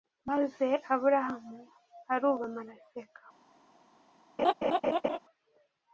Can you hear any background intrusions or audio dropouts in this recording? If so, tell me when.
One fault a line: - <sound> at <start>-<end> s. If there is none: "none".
- laugh at 4.4-5.2 s